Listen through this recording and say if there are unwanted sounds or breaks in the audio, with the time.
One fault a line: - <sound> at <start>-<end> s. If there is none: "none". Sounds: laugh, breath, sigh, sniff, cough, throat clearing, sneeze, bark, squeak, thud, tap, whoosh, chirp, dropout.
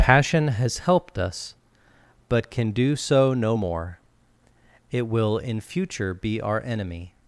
none